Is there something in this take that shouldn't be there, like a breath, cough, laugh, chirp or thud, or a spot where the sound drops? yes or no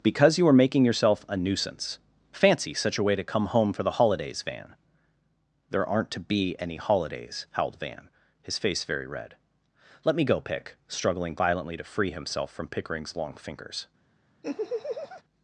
yes